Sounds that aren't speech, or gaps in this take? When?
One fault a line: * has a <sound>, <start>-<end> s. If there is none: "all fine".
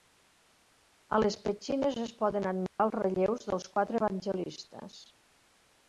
* has a dropout, 2.7-2.8 s